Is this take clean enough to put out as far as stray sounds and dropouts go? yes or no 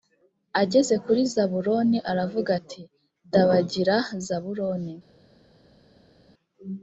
yes